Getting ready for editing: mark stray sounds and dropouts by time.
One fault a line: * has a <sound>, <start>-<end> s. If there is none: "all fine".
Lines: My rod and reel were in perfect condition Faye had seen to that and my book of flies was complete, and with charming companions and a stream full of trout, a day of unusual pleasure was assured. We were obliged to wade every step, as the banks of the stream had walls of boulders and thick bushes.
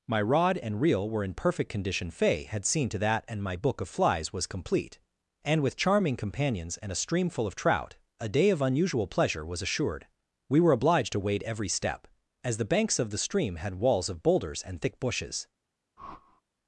* has a whoosh, 16.0-16.4 s